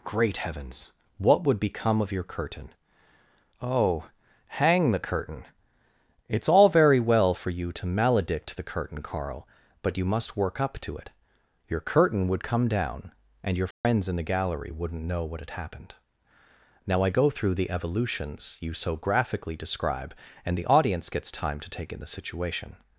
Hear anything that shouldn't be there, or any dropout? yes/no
yes